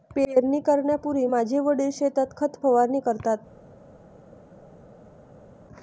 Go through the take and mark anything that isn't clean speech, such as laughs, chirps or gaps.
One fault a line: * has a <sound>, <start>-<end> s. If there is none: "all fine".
all fine